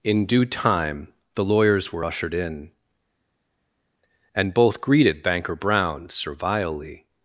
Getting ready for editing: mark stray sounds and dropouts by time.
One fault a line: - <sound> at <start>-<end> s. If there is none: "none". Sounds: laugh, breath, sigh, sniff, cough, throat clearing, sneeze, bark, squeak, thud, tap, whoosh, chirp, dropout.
none